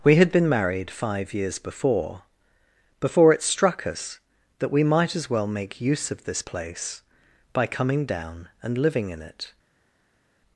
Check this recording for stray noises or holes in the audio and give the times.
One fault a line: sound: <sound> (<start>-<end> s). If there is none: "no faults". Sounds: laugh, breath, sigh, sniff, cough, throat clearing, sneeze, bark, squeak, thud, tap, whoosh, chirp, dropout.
no faults